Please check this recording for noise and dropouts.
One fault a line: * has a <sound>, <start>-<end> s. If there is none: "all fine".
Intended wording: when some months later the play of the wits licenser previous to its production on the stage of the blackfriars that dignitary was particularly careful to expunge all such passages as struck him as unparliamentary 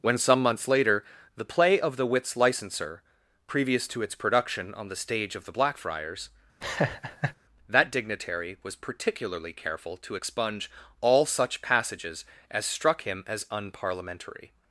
* has a laugh, 6.6-7.4 s